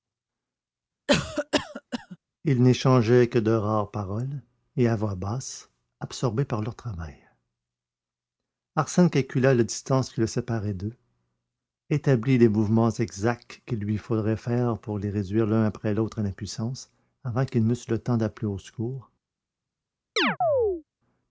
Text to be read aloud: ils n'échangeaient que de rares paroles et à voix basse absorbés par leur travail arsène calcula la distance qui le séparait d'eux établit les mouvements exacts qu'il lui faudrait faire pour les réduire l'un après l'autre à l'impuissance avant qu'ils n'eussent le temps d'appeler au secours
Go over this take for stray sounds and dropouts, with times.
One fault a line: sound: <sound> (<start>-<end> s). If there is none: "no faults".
sound: cough (1.1-2.2 s)
sound: chirp (20.2-20.8 s)